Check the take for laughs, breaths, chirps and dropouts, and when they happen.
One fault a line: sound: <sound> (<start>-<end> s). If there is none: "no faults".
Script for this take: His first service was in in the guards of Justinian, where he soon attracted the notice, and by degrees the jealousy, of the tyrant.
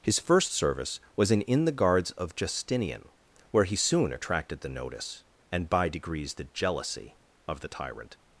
no faults